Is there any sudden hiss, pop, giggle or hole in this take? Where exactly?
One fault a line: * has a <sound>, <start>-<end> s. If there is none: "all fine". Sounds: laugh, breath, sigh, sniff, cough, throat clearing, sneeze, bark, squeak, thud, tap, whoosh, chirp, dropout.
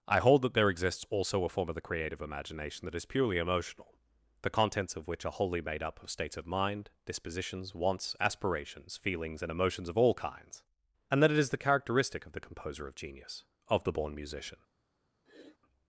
* has a sniff, 15.3-15.6 s